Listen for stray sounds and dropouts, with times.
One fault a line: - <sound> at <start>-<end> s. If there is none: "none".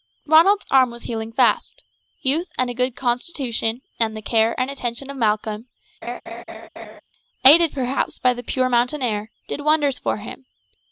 - laugh at 6.0-7.0 s